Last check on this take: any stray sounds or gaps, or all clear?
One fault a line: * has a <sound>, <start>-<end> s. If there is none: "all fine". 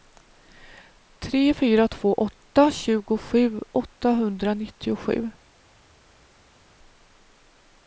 all fine